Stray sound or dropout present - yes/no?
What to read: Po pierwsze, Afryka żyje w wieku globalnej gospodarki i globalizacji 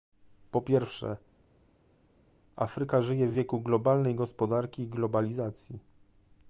no